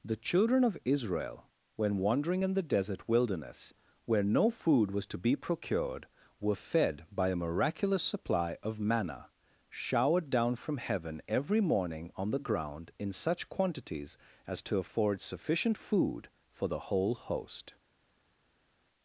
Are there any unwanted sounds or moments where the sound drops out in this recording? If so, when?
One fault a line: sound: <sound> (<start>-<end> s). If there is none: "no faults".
no faults